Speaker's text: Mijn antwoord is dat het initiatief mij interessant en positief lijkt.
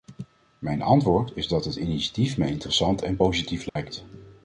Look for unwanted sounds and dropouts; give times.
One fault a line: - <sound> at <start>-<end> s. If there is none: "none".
- dropout at 3.7-3.8 s